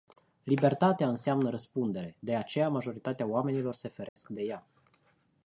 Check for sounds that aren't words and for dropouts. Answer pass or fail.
fail